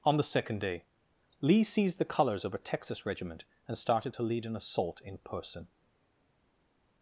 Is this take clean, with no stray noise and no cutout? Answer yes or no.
yes